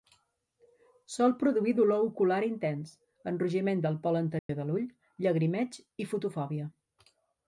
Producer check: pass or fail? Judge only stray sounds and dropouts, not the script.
fail